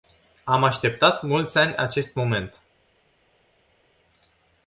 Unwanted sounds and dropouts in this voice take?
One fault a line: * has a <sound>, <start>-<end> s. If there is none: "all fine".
all fine